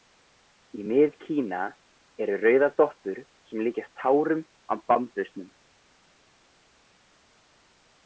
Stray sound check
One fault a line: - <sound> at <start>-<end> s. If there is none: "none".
none